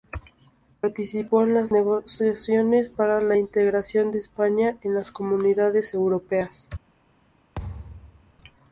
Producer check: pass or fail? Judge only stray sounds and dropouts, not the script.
fail